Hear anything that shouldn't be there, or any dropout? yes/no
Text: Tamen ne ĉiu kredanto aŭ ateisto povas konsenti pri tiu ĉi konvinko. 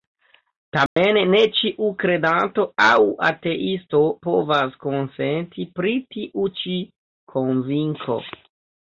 yes